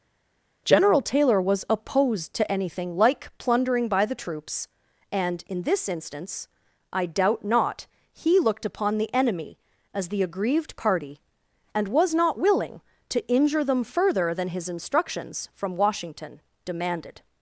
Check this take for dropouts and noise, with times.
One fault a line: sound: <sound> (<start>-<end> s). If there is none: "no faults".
no faults